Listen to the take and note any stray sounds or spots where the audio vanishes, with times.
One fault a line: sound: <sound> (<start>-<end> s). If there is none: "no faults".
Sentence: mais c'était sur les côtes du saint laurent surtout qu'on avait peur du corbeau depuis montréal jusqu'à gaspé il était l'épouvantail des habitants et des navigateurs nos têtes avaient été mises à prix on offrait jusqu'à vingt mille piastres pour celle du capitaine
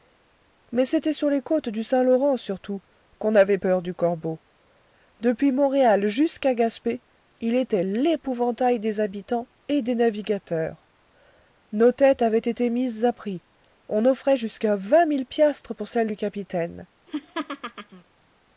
sound: laugh (17.1-18.0 s)